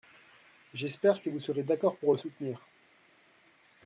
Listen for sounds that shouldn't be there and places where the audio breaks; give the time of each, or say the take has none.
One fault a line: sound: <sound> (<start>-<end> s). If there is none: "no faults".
no faults